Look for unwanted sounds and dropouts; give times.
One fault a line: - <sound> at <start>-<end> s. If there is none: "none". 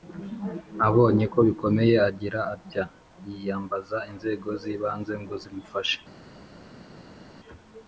none